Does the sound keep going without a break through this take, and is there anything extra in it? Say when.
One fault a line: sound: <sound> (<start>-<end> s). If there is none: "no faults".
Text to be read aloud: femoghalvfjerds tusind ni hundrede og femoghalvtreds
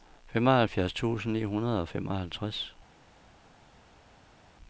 no faults